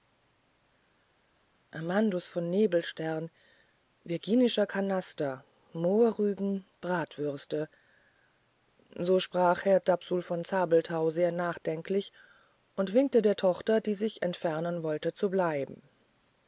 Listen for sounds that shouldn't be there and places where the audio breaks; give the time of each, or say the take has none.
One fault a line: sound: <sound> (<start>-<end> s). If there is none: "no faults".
no faults